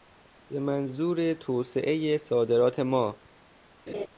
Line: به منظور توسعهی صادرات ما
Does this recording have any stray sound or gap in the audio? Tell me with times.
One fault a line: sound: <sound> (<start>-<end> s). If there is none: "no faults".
sound: laugh (3.9-4.1 s)